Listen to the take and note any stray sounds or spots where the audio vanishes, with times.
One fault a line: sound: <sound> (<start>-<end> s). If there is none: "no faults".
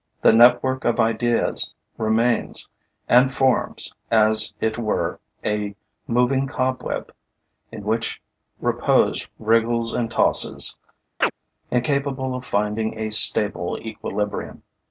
sound: chirp (11.2-11.3 s)